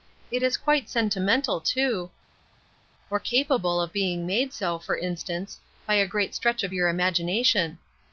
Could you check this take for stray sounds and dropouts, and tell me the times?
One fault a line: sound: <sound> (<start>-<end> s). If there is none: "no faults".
no faults